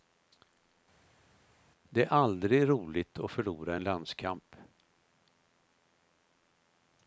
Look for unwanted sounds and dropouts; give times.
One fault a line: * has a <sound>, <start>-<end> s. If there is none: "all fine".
all fine